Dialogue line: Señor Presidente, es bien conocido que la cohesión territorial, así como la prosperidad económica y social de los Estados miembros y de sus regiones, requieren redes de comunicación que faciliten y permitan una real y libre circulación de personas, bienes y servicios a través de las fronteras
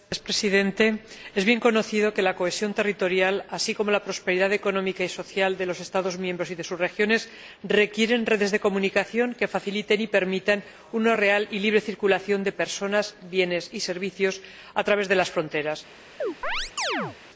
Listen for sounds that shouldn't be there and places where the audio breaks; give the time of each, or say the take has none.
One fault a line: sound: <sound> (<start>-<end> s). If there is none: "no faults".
sound: chirp (16.2-17.2 s)